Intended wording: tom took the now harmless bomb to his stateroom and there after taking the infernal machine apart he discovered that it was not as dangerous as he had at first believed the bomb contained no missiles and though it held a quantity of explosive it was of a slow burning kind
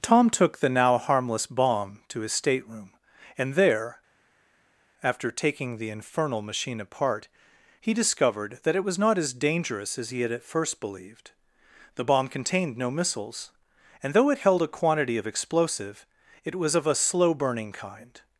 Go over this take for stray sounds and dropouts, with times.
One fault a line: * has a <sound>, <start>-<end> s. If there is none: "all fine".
all fine